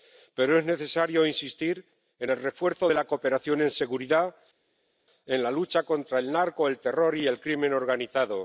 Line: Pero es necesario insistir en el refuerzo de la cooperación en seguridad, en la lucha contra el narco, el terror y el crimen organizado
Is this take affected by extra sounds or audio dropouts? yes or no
no